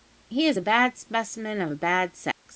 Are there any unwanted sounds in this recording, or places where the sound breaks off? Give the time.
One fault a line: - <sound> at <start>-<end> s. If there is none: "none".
- dropout at 2.3-2.5 s